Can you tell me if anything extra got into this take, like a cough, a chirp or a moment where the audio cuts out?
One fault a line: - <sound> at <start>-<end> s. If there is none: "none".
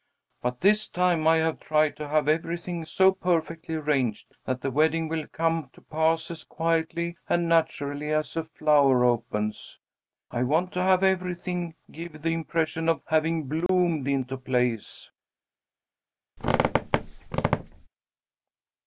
- dropout at 13.7-13.7 s
- squeak at 16.4-17.9 s